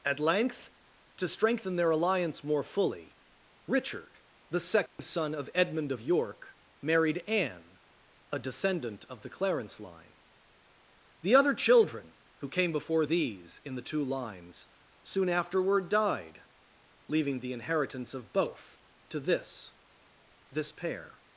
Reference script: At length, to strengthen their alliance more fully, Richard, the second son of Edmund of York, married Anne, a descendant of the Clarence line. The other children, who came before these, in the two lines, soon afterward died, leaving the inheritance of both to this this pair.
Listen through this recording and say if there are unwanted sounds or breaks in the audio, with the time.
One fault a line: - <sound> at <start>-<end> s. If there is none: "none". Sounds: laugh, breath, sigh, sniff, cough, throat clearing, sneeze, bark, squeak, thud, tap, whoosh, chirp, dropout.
- dropout at 4.9-5.0 s